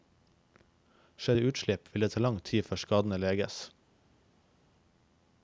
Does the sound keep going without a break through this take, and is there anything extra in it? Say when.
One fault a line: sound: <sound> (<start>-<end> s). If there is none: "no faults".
no faults